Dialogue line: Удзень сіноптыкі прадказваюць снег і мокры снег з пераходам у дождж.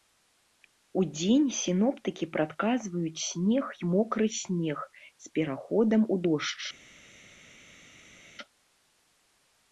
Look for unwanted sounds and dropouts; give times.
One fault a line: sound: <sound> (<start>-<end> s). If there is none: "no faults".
no faults